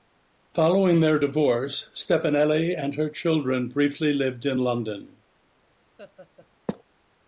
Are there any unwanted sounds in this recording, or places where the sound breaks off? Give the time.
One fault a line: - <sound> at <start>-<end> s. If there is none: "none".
- laugh at 6.0-6.5 s